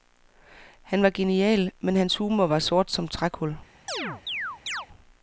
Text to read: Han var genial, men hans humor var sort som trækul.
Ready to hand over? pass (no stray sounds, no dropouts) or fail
fail